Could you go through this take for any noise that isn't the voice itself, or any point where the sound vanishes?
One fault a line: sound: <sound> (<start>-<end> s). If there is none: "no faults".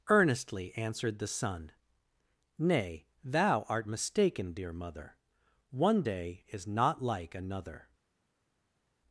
no faults